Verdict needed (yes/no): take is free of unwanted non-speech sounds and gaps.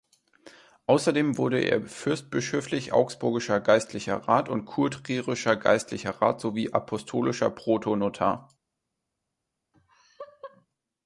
no